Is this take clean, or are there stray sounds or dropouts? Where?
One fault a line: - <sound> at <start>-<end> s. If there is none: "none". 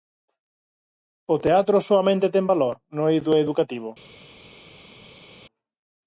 none